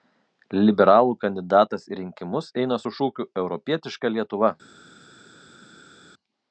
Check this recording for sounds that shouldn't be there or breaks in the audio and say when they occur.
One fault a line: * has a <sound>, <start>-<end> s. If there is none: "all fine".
all fine